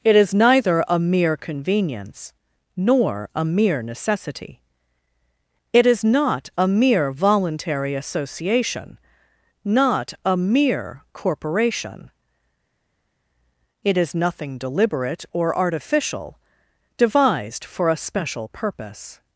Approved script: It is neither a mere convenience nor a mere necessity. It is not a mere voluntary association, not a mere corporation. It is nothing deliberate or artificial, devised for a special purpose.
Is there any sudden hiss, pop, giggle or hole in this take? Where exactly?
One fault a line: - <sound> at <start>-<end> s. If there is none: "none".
none